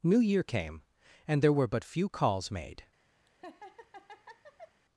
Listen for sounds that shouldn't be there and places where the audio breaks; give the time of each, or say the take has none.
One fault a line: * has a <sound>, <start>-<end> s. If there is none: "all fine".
* has a laugh, 3.3-4.8 s